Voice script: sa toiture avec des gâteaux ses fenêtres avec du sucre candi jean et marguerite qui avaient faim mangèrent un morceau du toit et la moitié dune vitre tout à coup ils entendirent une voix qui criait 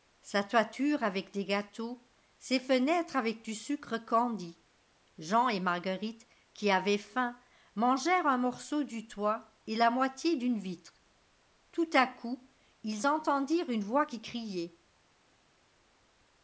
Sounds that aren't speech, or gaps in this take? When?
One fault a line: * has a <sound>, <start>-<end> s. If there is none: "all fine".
all fine